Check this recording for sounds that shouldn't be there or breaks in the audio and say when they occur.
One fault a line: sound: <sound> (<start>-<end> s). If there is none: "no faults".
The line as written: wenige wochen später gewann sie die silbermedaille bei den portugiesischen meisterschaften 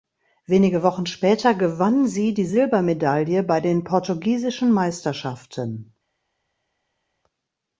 no faults